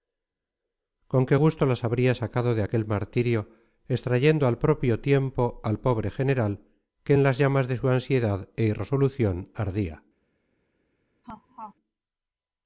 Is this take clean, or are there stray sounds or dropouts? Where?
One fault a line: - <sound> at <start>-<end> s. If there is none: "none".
- laugh at 11.2-11.7 s